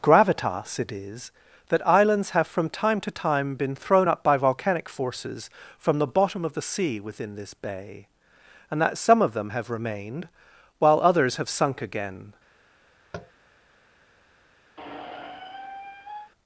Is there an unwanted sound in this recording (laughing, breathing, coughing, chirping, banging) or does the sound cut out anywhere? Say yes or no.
yes